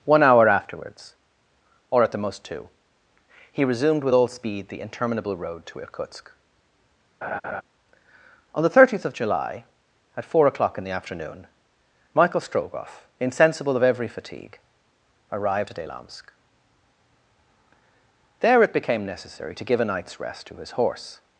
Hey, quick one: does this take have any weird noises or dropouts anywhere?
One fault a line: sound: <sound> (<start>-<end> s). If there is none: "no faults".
sound: laugh (7.2-7.6 s)